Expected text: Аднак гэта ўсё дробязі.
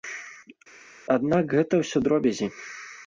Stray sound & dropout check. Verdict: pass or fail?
pass